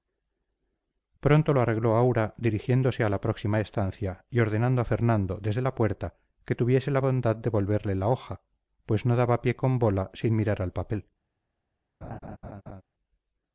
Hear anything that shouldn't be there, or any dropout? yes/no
yes